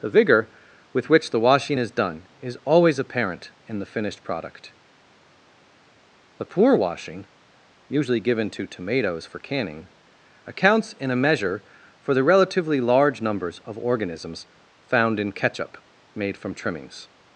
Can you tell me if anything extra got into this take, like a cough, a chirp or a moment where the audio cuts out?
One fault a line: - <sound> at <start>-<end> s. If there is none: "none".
none